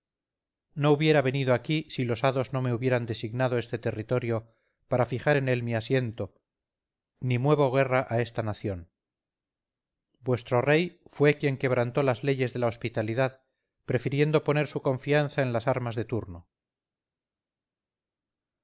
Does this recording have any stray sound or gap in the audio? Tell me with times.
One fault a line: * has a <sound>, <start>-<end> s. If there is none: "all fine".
all fine